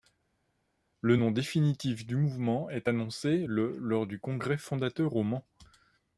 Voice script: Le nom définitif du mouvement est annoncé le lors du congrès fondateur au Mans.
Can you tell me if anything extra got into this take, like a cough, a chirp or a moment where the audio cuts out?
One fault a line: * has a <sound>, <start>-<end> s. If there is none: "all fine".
all fine